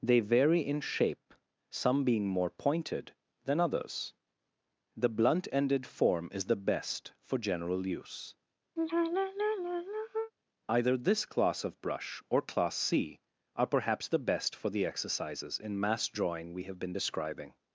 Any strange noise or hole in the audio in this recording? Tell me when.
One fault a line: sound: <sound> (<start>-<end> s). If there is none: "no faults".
sound: sigh (8.8-10.3 s)